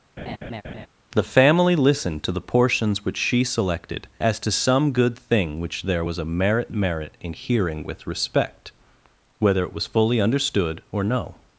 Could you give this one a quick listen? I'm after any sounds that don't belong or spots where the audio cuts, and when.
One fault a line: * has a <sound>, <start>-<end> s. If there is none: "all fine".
* has a laugh, 0.2-0.9 s